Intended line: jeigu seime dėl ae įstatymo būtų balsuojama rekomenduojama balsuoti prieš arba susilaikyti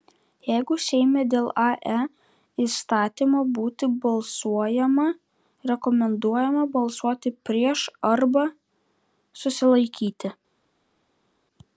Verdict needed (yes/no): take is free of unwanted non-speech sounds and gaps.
yes